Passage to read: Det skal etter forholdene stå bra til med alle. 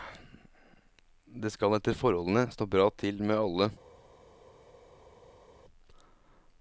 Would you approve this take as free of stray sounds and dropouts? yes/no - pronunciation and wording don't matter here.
yes